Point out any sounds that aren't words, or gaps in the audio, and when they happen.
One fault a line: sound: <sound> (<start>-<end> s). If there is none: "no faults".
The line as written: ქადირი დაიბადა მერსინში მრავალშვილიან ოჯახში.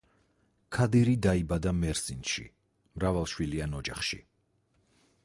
no faults